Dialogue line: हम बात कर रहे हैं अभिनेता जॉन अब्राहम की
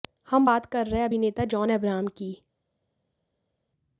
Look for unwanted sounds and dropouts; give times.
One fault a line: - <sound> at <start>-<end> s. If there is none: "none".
none